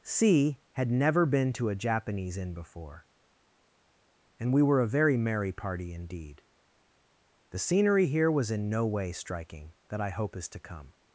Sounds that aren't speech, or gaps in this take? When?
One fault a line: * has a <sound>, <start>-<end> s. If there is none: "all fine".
all fine